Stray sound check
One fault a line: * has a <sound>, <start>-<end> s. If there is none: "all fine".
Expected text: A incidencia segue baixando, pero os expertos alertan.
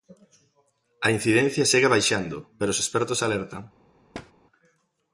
* has a thud, 4.1-4.3 s